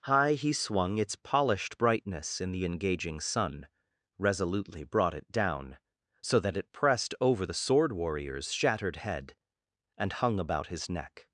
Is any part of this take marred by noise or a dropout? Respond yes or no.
no